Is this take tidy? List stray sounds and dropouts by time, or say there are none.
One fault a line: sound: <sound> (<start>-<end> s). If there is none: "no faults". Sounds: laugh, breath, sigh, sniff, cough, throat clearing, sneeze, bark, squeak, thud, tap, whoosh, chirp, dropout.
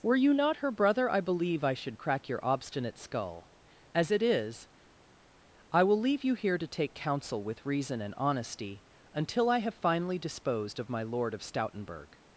no faults